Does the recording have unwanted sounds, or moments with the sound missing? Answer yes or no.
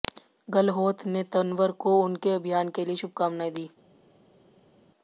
no